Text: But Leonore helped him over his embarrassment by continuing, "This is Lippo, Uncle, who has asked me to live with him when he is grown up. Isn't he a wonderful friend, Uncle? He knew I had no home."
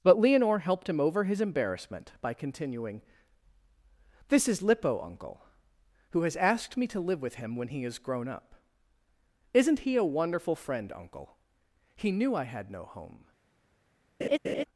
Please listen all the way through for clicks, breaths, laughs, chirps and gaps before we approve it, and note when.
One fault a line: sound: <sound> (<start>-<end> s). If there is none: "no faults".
sound: laugh (14.2-14.6 s)